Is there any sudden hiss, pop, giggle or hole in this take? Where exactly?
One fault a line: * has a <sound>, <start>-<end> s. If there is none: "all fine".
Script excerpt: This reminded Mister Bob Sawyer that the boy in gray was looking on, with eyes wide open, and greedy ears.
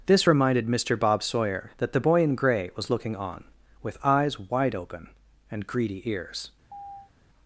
* has a chirp, 6.7-7.1 s